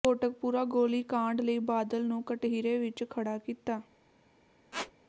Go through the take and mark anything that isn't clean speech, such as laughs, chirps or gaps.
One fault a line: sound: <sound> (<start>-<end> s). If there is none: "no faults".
sound: squeak (4.7-4.9 s)